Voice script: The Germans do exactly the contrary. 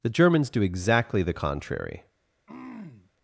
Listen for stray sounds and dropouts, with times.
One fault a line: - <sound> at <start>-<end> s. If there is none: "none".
- throat clearing at 2.5-3.1 s